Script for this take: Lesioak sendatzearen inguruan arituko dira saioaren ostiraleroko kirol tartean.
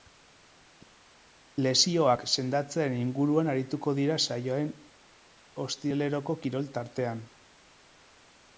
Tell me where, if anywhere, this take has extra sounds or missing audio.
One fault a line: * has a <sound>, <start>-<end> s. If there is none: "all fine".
all fine